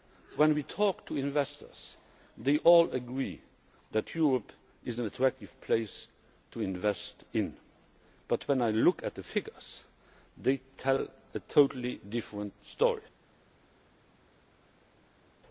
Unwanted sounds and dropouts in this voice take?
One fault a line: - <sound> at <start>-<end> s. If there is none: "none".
none